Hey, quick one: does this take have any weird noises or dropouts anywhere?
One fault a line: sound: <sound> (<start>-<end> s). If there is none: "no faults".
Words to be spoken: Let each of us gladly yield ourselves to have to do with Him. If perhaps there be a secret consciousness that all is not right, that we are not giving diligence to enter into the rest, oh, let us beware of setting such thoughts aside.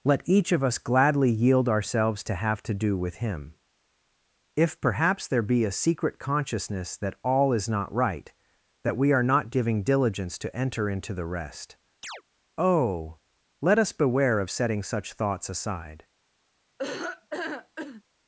sound: chirp (12.0-12.2 s)
sound: laugh (16.8-18.0 s)